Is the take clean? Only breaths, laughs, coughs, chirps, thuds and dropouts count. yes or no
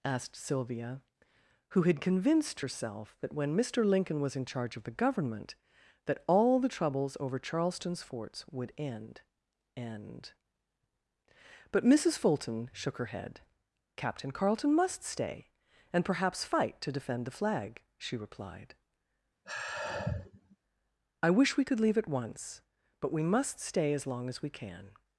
no